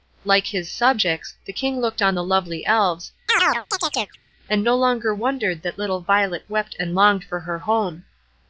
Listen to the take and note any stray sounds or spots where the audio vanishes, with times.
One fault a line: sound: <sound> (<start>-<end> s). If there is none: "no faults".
sound: chirp (3.3-4.2 s)